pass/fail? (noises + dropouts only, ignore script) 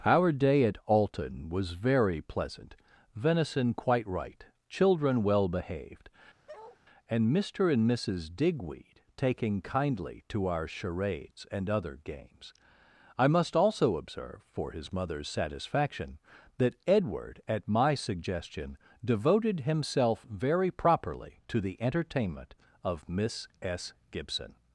fail